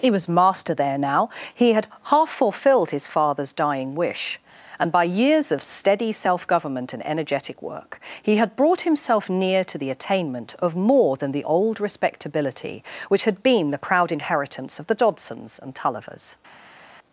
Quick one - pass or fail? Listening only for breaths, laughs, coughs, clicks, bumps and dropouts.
pass